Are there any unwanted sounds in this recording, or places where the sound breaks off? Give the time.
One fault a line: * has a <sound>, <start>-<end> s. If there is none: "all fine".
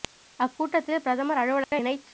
* has a dropout, 1.6-1.7 s